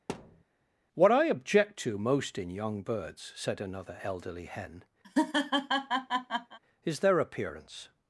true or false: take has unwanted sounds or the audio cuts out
true